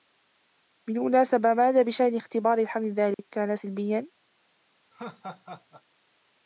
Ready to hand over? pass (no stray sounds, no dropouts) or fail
fail